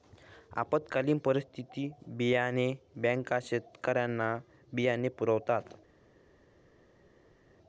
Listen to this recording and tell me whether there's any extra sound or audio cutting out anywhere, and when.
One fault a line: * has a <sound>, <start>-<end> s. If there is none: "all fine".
all fine